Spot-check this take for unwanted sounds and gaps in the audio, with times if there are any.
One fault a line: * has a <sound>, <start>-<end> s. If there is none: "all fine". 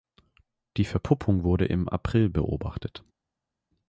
all fine